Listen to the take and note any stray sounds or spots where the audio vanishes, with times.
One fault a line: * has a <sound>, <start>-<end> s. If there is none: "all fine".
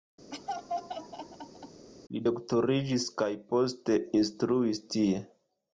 * has a laugh, 0.3-1.9 s